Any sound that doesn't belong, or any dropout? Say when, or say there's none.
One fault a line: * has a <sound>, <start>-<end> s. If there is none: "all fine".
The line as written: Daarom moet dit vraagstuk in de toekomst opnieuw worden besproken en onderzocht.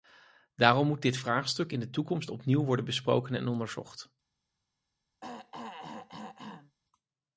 * has a throat clearing, 5.2-6.8 s